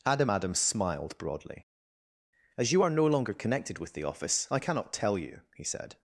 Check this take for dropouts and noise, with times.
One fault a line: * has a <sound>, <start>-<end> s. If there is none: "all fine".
all fine